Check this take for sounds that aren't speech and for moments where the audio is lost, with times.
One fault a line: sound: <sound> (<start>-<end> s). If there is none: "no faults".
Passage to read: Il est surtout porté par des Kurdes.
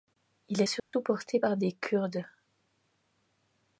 sound: dropout (0.8-0.9 s)